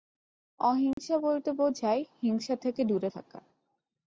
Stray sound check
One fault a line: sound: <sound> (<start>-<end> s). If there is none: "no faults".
sound: dropout (0.9-1.0 s)